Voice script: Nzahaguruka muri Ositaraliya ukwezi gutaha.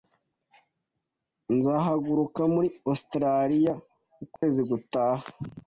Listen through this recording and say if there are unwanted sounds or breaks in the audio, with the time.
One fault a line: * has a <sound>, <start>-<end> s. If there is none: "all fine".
* has a dropout, 4.4-4.4 s